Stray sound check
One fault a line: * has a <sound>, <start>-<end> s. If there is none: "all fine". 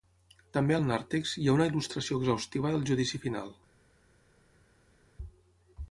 all fine